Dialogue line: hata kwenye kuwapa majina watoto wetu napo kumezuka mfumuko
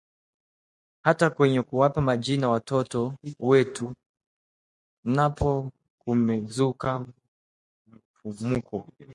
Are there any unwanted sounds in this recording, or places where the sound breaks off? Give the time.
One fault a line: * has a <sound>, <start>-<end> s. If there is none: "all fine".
all fine